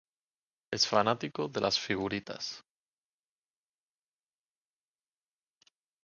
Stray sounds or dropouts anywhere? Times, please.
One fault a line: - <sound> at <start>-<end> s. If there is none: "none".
none